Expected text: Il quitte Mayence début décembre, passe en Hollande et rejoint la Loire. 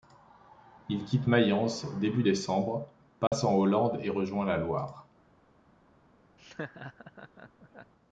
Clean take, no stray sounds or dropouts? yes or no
no